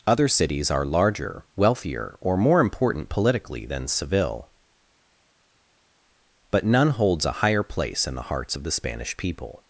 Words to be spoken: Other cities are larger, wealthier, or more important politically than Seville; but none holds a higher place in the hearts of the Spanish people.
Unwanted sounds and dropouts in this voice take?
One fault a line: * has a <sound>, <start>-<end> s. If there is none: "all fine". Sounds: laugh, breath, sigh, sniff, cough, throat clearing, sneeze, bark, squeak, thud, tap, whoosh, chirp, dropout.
all fine